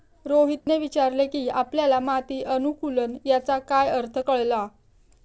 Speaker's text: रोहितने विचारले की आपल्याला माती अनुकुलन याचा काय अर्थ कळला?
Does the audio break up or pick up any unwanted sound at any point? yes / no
yes